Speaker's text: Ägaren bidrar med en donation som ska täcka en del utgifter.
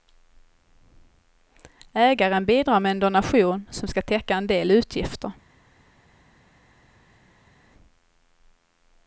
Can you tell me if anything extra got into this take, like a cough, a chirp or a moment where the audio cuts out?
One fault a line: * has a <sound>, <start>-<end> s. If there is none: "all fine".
all fine